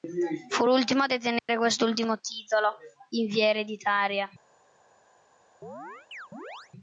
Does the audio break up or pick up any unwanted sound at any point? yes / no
yes